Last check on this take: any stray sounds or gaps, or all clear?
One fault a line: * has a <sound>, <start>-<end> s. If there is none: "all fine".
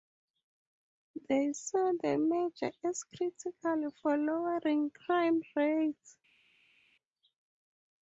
all fine